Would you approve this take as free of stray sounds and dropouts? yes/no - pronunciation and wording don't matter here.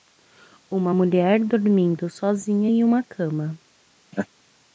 no